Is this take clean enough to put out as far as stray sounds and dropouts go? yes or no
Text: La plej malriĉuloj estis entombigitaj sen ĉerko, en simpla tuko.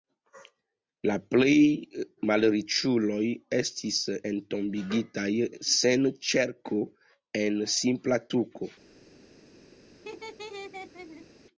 no